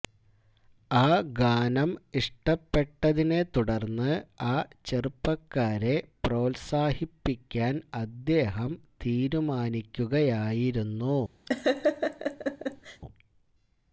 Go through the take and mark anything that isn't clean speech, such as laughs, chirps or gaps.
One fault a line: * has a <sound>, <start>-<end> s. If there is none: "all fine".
* has a laugh, 11.5-13.0 s